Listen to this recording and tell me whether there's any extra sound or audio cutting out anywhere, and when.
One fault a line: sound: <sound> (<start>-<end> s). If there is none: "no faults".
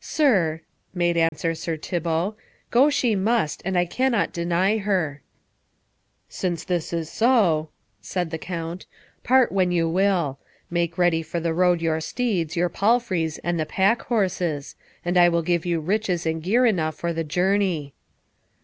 sound: dropout (1.3-1.3 s)